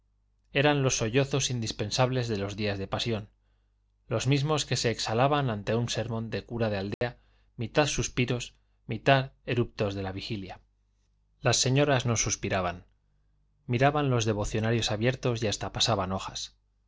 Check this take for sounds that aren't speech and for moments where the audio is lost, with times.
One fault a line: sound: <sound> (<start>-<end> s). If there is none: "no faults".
sound: dropout (6.9-7.0 s)